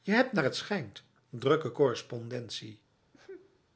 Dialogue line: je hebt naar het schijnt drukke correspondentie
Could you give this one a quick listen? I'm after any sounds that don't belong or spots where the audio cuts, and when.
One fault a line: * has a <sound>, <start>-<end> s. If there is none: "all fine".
* has a sneeze, 3.1-3.6 s